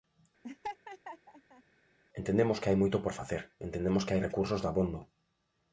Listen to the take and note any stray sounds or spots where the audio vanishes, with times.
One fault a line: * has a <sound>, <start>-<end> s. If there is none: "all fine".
* has a laugh, 0.4-1.6 s